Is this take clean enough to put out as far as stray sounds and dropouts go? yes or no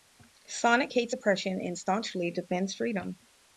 yes